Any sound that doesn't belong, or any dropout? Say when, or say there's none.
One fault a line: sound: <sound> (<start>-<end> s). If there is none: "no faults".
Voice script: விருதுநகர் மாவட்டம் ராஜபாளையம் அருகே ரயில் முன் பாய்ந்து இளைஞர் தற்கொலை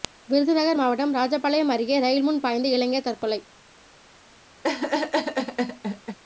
sound: laugh (4.6-6.2 s)